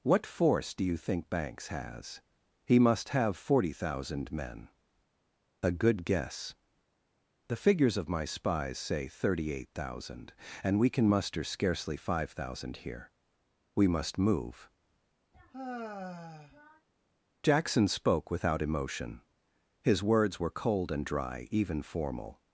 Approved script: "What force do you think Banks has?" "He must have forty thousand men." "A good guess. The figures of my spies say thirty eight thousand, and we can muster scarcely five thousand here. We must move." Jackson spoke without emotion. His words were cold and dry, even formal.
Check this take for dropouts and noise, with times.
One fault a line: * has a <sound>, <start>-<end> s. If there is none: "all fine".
* has a sigh, 15.3-16.9 s